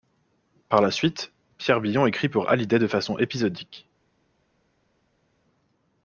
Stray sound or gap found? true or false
false